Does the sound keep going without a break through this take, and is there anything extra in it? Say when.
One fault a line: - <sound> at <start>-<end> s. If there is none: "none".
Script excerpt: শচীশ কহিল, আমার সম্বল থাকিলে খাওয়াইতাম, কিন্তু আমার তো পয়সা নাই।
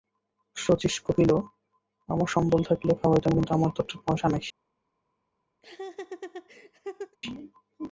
- laugh at 5.6-7.2 s